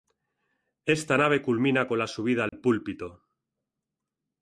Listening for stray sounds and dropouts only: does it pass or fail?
fail